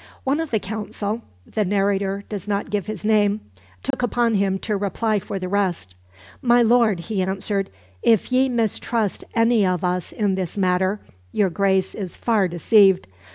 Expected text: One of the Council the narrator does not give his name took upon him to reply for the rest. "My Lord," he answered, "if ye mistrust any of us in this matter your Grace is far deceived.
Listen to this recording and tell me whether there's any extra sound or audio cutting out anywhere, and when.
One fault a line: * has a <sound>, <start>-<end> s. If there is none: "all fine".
* has a dropout, 3.9-3.9 s